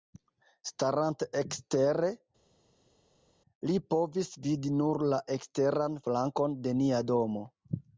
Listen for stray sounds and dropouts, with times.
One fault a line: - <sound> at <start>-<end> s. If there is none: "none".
none